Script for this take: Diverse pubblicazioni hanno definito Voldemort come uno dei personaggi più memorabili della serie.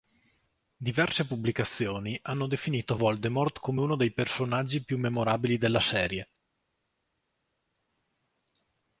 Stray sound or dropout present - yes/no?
no